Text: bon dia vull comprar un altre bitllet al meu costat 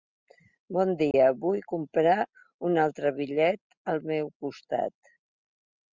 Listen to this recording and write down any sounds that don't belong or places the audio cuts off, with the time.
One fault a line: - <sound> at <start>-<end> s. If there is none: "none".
- dropout at 1.1-1.1 s